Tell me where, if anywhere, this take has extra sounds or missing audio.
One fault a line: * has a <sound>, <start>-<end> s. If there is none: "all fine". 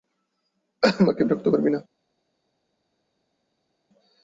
all fine